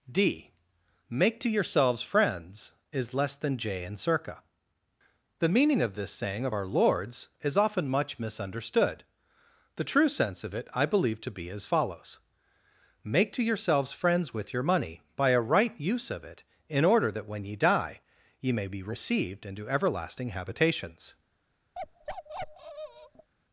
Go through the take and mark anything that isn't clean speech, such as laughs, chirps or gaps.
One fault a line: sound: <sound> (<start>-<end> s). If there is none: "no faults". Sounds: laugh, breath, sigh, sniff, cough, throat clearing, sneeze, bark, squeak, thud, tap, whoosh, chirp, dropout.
sound: bark (21.7-23.3 s)